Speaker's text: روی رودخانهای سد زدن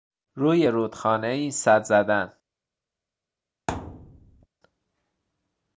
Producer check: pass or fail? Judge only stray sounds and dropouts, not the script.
fail